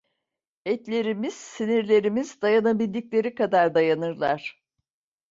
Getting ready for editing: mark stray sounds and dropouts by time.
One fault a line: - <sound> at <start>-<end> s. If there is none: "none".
none